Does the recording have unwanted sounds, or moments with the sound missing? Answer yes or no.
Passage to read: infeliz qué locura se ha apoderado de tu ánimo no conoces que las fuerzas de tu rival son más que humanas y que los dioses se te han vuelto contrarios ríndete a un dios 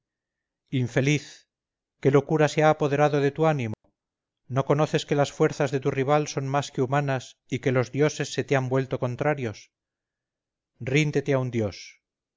yes